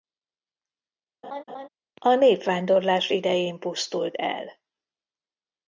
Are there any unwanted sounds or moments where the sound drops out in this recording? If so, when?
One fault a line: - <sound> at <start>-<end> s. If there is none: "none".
- laugh at 1.2-1.7 s